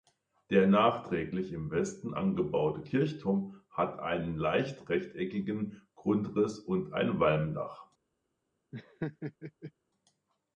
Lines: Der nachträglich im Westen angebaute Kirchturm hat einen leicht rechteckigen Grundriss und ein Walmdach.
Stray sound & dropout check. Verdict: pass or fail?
fail